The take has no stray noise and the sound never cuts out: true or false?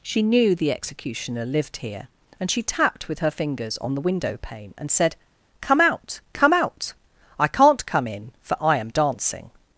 true